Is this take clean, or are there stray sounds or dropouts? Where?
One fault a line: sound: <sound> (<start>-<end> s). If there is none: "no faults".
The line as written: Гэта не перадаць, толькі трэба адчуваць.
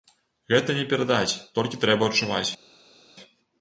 no faults